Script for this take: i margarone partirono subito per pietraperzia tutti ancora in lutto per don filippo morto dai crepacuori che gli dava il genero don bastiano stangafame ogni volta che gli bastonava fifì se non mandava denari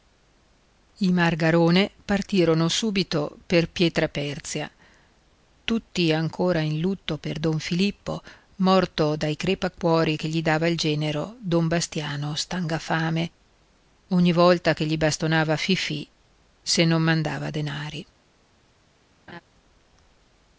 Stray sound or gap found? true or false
true